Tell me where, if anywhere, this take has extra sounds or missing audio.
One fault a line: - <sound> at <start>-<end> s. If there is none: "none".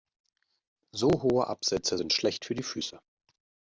none